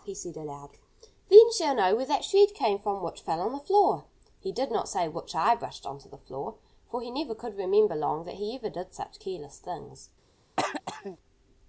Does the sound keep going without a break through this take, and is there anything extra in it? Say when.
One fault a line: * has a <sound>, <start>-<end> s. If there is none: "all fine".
* has a throat clearing, 10.6-11.2 s